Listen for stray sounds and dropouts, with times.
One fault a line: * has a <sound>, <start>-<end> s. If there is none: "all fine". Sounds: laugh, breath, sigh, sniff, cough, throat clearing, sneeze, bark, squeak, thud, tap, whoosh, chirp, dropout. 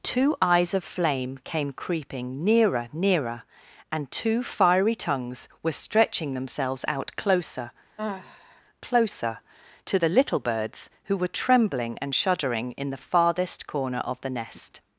* has a sigh, 8.0-8.6 s